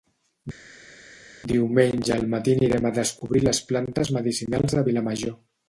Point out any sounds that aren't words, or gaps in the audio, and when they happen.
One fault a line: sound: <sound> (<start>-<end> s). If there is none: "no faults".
no faults